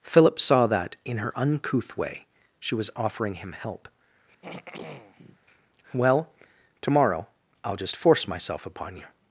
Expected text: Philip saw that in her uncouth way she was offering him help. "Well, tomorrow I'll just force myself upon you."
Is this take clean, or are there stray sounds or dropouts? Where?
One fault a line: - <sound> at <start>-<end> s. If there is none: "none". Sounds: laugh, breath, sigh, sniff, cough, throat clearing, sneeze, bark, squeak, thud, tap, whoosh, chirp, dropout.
- throat clearing at 4.4-5.4 s